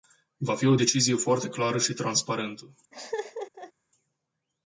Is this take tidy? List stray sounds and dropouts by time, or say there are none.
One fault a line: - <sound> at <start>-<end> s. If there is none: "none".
- laugh at 2.9-3.7 s